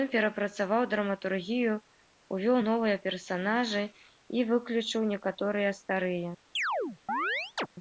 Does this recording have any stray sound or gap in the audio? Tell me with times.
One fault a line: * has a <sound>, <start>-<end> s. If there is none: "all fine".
* has a chirp, 6.6-7.7 s